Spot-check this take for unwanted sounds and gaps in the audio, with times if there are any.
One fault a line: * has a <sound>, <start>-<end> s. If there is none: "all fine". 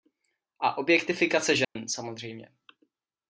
* has a dropout, 1.6-1.8 s